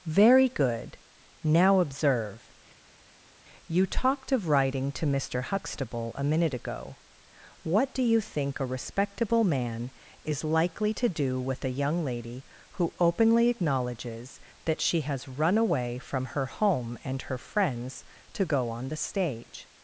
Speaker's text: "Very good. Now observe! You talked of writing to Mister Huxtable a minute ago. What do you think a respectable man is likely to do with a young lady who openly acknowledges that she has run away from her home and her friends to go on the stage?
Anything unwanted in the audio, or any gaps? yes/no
no